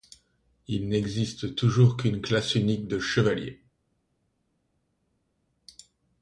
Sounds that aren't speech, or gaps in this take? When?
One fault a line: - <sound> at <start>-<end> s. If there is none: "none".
none